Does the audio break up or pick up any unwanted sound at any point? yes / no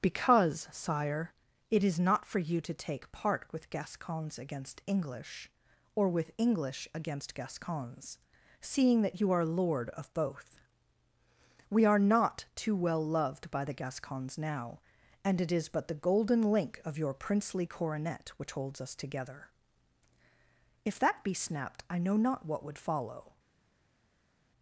no